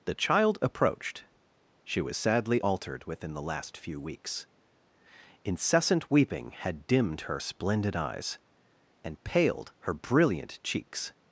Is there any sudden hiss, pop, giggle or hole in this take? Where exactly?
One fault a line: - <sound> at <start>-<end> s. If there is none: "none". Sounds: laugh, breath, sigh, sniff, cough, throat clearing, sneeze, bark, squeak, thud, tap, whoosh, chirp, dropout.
none